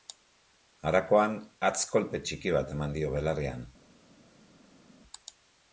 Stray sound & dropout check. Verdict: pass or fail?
pass